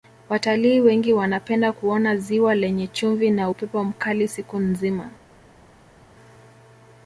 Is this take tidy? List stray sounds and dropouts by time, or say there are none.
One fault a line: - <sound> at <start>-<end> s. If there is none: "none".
none